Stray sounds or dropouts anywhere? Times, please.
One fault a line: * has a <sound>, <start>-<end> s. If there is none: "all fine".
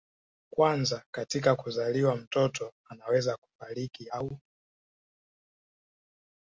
all fine